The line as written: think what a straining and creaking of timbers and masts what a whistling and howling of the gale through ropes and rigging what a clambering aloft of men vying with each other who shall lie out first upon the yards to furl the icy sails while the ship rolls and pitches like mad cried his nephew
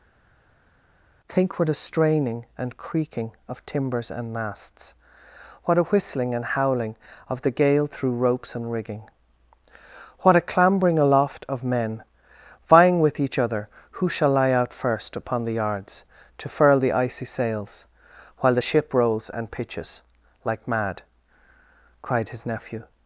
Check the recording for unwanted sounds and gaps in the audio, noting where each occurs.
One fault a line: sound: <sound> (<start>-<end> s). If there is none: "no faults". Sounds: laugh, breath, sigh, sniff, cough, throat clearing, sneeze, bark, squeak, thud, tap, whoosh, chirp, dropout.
no faults